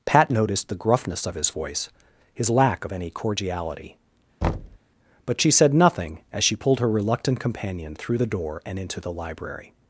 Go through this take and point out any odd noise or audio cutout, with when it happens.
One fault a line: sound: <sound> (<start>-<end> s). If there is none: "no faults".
sound: thud (4.4-4.8 s)